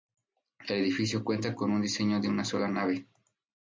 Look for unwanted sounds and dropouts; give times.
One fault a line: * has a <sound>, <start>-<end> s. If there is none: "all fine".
all fine